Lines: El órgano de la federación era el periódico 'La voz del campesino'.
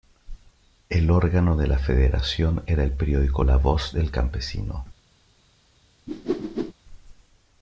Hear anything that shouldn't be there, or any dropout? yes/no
yes